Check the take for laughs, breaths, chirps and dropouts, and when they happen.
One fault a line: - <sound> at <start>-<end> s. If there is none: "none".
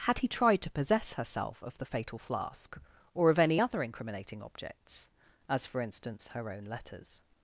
none